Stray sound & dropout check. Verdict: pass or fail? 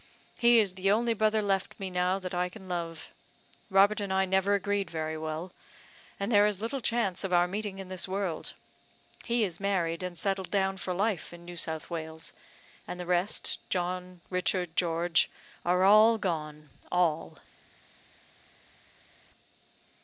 pass